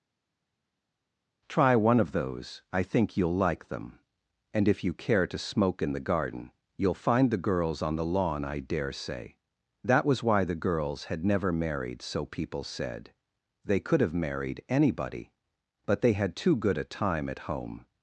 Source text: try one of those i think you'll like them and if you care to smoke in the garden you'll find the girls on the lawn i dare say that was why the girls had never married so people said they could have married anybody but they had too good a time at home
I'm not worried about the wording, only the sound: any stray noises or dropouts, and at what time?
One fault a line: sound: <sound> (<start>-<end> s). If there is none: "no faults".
no faults